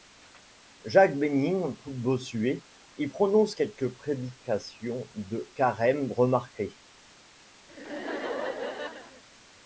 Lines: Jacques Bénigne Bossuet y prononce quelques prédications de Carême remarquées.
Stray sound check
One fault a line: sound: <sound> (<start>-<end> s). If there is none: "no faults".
sound: laugh (7.7-9.2 s)